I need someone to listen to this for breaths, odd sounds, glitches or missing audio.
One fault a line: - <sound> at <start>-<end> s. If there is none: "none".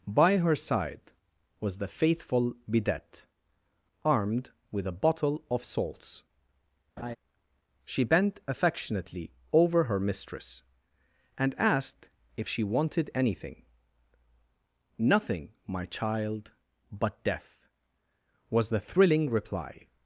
- laugh at 7.0-7.2 s